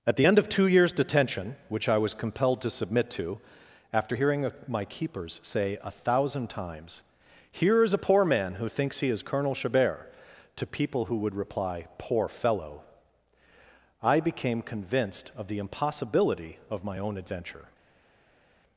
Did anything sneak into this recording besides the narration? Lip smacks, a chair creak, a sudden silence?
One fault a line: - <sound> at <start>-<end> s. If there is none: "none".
none